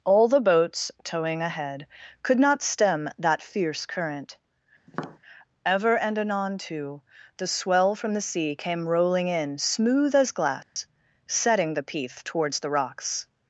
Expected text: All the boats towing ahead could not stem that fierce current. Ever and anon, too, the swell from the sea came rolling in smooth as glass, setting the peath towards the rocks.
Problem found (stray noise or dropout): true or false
true